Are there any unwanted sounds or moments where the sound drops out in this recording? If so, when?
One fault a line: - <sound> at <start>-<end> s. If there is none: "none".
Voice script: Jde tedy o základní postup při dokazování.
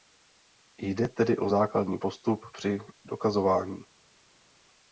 none